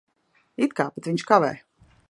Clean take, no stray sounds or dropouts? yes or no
yes